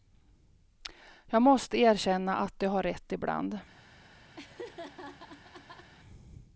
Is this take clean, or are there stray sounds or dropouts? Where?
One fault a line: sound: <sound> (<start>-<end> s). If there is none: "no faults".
sound: laugh (4.4-5.9 s)